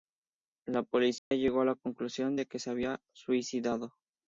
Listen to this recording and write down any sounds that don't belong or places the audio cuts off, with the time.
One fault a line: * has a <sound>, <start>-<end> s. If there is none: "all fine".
* has a dropout, 1.2-1.3 s